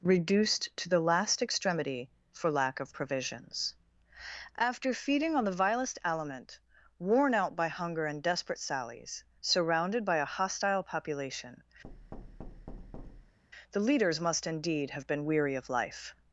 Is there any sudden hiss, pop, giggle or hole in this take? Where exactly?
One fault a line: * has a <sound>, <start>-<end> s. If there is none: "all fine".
* has a thud, 11.8-13.4 s